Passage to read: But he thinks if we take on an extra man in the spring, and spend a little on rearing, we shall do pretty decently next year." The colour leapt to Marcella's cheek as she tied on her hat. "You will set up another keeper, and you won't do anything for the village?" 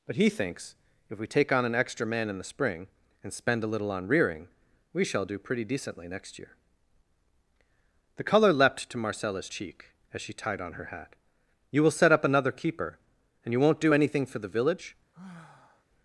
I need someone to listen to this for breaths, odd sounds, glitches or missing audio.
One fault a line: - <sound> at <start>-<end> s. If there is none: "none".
- sigh at 15.1-15.8 s